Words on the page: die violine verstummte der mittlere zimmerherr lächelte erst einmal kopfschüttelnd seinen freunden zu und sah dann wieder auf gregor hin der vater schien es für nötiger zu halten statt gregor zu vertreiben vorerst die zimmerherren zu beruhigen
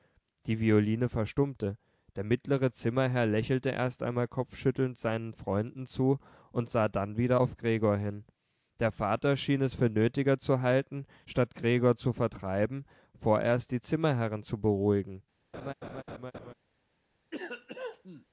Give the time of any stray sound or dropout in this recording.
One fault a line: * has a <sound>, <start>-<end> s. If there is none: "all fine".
* has a laugh, 15.5-16.5 s
* has a cough, 17.3-18.3 s